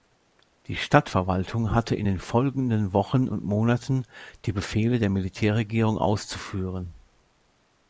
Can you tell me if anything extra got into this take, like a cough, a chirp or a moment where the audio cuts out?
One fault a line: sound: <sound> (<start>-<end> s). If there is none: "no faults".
no faults